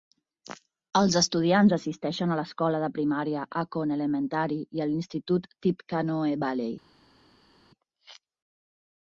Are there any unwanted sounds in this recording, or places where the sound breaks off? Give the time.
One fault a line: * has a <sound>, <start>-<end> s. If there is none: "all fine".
all fine